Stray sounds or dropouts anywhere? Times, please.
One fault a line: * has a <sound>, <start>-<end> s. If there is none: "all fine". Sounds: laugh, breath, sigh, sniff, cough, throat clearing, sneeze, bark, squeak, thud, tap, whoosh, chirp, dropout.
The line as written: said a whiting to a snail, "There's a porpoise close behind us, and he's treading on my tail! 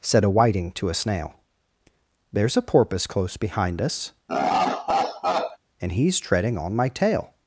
* has a laugh, 4.3-5.6 s